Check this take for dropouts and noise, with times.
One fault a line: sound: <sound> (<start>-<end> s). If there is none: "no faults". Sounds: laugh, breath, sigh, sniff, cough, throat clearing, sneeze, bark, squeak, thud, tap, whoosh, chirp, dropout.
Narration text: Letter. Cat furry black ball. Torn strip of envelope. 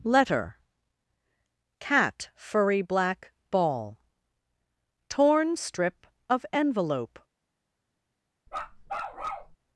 sound: bark (8.5-9.6 s)